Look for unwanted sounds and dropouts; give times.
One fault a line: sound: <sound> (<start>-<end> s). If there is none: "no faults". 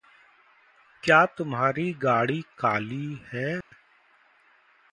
sound: dropout (3.6-3.7 s)